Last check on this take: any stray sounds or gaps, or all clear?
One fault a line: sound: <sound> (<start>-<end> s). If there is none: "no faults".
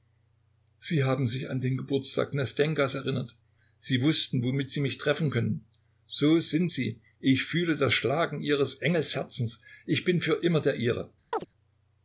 sound: chirp (11.3-11.5 s)